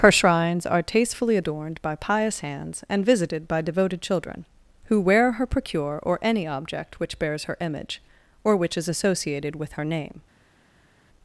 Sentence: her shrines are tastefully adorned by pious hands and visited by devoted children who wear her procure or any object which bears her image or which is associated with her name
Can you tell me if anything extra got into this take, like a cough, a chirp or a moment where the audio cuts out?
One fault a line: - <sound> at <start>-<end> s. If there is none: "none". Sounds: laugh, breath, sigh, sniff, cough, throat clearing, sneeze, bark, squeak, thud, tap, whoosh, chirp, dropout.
none